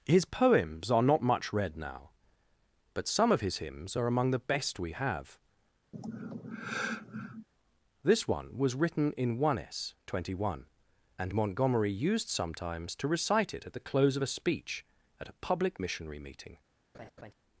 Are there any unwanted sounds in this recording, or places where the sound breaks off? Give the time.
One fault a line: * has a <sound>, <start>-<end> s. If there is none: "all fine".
* has a sigh, 5.9-7.5 s
* has a laugh, 16.9-17.3 s